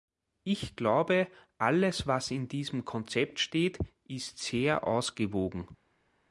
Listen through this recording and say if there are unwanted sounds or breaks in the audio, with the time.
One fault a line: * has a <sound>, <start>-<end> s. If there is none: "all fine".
all fine